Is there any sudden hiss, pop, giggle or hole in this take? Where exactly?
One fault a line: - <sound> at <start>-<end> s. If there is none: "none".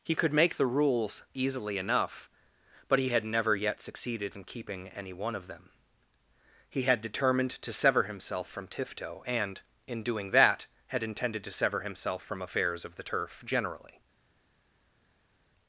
none